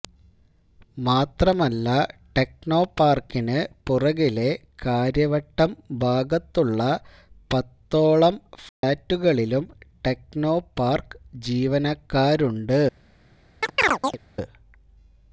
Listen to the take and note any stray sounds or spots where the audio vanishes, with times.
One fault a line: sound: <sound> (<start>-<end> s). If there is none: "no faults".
sound: dropout (8.7-8.8 s)
sound: chirp (13.6-14.2 s)